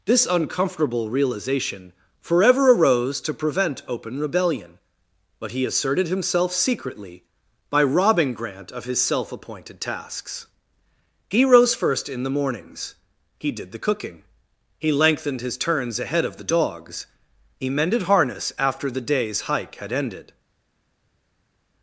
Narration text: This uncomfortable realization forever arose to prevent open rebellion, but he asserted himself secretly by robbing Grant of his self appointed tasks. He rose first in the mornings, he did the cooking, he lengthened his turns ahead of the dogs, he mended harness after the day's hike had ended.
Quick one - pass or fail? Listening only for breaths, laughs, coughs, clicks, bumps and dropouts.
pass